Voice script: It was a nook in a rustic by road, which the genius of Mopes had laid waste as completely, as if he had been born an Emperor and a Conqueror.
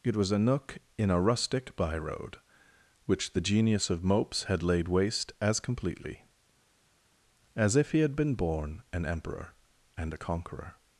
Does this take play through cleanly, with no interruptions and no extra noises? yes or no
yes